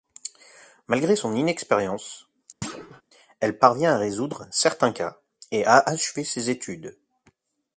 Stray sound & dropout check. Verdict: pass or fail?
fail